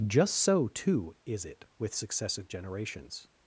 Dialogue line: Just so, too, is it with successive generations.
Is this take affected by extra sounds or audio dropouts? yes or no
no